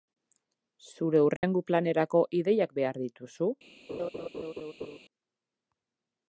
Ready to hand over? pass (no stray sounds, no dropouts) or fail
fail